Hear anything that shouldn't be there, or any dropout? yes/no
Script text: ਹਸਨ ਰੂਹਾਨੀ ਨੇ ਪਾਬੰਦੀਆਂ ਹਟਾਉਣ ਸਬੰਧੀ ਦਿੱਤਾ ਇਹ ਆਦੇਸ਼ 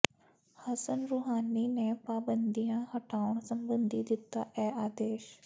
no